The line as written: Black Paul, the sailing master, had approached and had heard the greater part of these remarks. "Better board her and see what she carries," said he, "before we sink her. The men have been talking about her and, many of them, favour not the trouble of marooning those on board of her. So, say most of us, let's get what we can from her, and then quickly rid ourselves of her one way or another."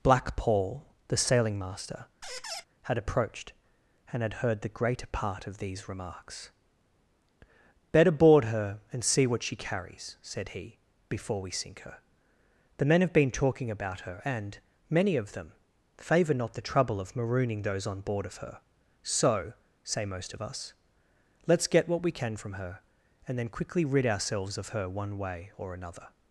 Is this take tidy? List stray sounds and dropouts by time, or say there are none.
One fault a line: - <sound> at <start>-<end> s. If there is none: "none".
- squeak at 2.2-2.6 s